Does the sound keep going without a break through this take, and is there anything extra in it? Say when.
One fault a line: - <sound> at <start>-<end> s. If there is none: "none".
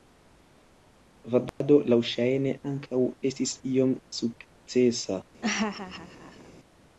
- dropout at 1.5-1.6 s
- laugh at 5.4-6.5 s